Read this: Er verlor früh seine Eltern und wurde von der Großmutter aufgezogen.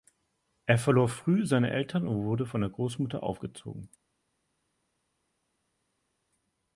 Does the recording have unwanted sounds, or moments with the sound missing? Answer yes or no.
no